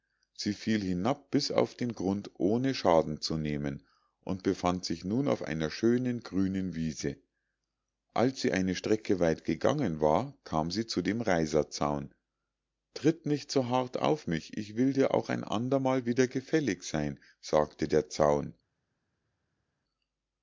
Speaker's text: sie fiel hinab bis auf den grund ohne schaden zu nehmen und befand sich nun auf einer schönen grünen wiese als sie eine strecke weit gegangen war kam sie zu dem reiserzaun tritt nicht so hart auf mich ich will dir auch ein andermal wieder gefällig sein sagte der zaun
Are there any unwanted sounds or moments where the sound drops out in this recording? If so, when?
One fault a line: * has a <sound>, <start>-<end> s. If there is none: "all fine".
all fine